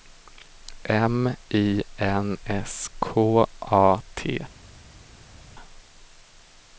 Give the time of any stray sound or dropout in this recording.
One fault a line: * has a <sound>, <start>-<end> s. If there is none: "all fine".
all fine